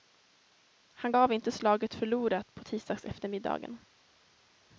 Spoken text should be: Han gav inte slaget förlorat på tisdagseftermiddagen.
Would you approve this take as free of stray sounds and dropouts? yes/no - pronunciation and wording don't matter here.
yes